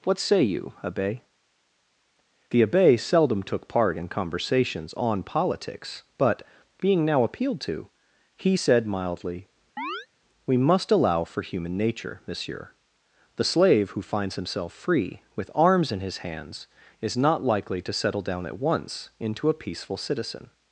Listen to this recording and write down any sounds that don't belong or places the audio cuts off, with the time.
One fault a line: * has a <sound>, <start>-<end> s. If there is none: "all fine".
* has a chirp, 9.8-10.1 s